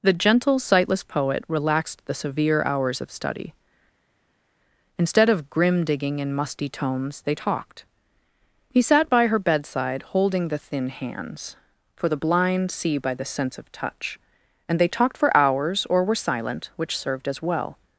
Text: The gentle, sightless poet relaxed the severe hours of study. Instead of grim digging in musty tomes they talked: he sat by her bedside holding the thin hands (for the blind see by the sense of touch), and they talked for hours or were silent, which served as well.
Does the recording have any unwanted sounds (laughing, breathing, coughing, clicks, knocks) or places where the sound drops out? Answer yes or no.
no